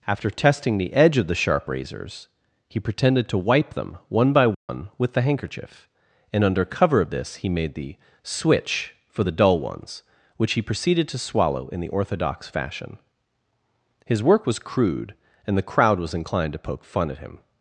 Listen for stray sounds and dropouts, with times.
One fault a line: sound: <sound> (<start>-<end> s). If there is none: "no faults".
sound: dropout (4.5-4.7 s)